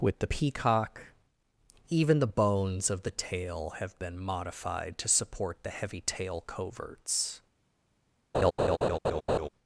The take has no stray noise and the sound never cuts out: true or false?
false